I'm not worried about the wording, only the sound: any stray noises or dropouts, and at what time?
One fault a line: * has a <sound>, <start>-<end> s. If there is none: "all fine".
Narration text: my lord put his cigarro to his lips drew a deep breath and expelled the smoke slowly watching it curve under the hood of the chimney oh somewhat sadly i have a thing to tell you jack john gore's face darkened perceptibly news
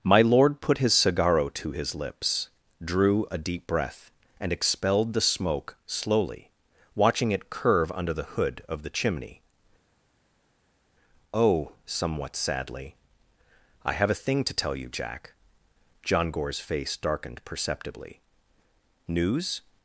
all fine